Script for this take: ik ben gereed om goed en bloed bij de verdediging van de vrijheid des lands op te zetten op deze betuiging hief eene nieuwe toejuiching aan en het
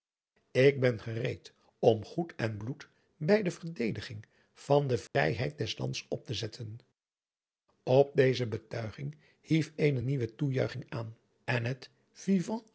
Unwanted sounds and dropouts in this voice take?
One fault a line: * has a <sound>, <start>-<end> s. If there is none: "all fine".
* has a dropout, 5.1-5.1 s